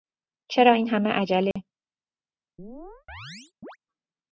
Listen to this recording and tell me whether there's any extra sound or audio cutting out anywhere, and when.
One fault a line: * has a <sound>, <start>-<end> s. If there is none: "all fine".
* has a dropout, 1.5-1.6 s
* has a chirp, 2.6-3.8 s